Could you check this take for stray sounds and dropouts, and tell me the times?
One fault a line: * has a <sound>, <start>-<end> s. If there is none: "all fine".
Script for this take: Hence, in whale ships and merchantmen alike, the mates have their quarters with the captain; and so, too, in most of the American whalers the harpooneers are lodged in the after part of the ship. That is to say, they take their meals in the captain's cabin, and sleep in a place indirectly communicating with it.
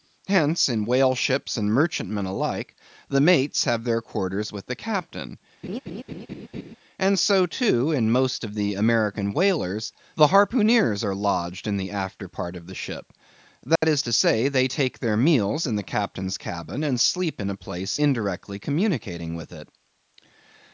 * has a laugh, 5.6-6.8 s
* has a dropout, 13.8-13.8 s